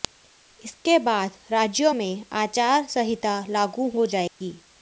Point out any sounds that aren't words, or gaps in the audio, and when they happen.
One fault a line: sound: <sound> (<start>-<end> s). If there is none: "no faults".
sound: dropout (4.3-4.4 s)